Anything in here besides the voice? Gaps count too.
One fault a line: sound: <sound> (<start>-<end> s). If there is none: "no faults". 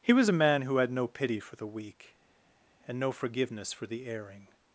no faults